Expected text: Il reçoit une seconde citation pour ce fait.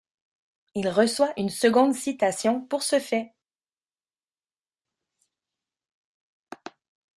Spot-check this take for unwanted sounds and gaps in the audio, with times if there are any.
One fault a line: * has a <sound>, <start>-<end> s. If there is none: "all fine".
all fine